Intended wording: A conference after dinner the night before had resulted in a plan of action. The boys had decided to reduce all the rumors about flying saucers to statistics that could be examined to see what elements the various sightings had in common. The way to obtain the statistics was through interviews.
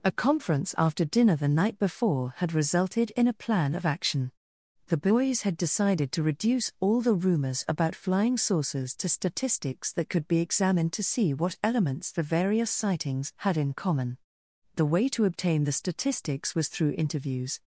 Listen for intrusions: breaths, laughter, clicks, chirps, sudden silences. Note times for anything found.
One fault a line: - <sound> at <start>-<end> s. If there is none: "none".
none